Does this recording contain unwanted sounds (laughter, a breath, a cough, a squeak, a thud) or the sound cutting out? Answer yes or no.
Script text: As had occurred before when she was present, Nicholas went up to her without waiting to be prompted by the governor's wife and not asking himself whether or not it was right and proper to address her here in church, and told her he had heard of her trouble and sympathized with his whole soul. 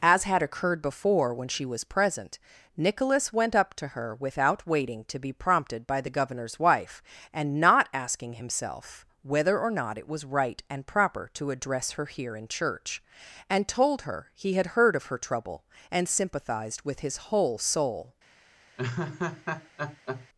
yes